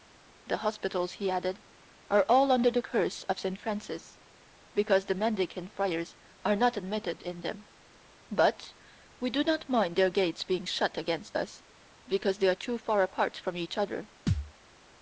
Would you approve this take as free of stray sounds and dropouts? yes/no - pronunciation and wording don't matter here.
no